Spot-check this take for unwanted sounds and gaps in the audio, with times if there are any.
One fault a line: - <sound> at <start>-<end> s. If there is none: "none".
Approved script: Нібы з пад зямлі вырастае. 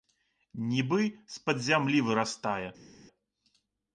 none